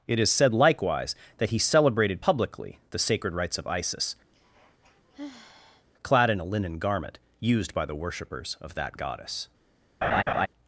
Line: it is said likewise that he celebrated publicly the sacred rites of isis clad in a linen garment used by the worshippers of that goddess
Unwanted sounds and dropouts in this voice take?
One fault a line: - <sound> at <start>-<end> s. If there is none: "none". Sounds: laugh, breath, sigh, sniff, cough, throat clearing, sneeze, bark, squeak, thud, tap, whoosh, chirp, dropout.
- sigh at 4.3-5.9 s
- laugh at 10.0-10.5 s